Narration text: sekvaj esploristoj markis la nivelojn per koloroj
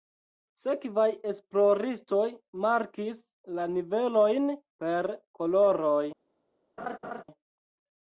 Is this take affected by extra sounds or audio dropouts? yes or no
yes